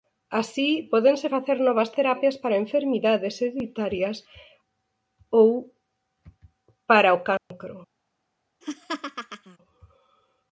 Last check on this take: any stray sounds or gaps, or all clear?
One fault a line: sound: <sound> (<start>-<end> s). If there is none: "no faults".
sound: dropout (7.4-7.5 s)
sound: laugh (8.6-9.6 s)